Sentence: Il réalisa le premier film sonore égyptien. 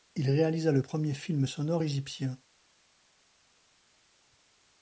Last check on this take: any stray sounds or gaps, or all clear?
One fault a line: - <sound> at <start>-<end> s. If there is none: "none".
none